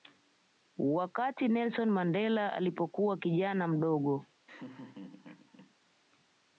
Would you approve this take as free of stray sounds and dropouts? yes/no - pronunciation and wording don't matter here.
no